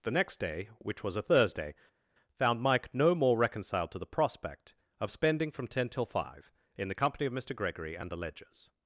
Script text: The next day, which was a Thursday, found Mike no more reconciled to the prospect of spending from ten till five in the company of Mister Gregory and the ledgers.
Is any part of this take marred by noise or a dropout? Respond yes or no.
no